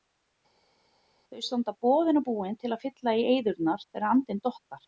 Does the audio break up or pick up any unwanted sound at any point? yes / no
no